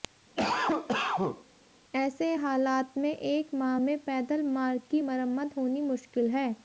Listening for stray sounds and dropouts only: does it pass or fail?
fail